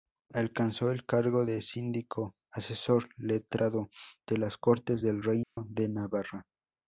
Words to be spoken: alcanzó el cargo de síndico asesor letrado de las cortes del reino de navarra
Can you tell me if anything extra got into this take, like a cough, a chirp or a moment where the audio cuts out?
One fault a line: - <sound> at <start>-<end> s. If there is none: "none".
- dropout at 5.4-5.6 s